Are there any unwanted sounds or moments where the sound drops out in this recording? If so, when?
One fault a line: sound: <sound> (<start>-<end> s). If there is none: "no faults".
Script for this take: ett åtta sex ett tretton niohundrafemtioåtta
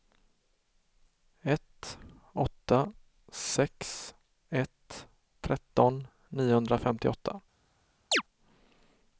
sound: chirp (8.1-8.2 s)